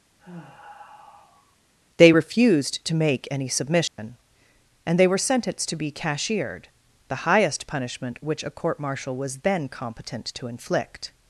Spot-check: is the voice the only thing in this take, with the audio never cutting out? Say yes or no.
no